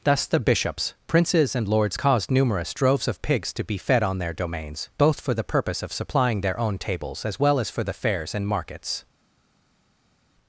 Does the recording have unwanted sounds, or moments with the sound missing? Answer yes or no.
no